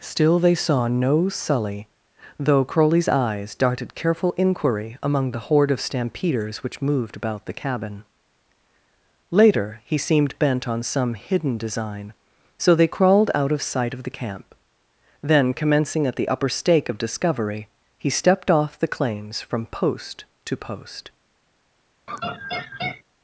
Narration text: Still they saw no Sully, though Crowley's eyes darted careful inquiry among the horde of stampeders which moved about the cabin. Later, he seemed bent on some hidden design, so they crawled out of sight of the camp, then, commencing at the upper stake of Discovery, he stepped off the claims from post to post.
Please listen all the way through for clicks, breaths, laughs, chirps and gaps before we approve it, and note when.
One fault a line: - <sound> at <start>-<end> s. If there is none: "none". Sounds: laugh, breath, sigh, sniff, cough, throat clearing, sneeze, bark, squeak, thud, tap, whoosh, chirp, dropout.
- laugh at 22.1-23.0 s